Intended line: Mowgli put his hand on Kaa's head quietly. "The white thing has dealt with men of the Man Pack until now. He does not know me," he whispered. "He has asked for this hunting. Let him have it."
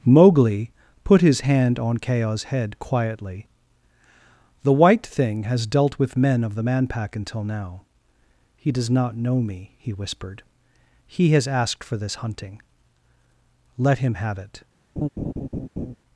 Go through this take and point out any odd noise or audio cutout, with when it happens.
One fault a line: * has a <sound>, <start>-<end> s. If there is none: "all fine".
* has a laugh, 15.0-16.0 s